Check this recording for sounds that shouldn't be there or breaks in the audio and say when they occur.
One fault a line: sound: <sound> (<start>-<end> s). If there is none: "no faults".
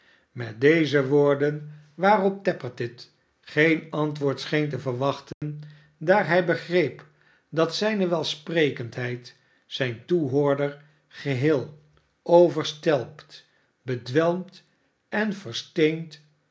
sound: dropout (5.3-5.4 s)